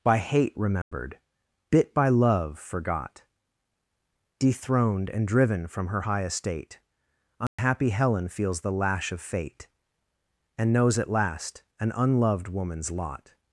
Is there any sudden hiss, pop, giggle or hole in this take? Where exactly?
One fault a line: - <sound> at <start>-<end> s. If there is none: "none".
- dropout at 0.8-0.9 s
- dropout at 7.5-7.6 s